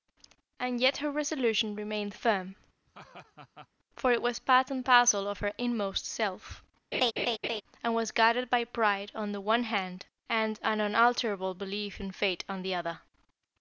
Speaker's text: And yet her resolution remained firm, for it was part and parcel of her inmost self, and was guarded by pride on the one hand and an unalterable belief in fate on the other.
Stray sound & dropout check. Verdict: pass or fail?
fail